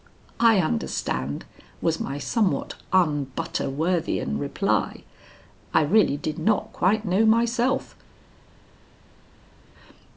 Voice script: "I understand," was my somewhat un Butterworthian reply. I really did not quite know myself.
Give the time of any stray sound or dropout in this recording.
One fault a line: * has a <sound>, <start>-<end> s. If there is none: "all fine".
all fine